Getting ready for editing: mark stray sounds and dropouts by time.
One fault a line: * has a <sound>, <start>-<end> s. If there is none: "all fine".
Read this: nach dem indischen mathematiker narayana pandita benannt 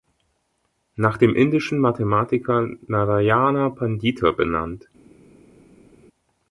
all fine